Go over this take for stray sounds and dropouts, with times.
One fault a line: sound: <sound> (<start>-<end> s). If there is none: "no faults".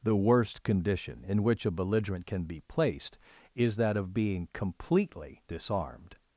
no faults